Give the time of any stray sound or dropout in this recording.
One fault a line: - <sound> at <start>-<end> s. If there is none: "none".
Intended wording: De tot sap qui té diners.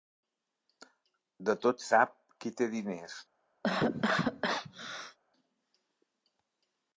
- cough at 3.6-5.2 s